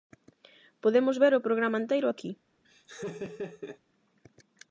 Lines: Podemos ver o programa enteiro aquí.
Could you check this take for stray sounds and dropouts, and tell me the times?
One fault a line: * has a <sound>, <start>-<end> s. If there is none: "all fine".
* has a laugh, 2.6-3.8 s